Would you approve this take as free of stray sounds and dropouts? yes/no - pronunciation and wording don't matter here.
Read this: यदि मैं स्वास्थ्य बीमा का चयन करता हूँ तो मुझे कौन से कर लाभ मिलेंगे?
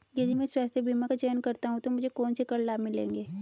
yes